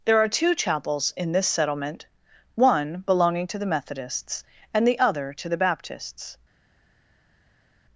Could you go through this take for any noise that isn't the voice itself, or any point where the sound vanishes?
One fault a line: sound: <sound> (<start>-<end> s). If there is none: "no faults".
no faults